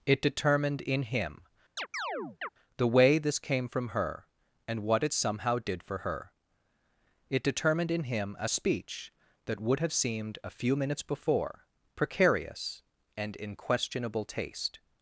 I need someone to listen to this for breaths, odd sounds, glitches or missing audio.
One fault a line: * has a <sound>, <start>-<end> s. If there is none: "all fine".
* has a chirp, 1.8-2.5 s